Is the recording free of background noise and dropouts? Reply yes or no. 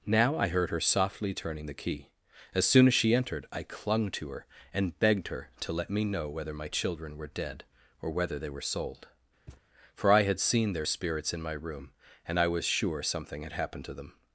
no